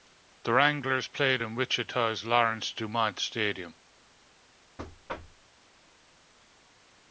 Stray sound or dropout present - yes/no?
yes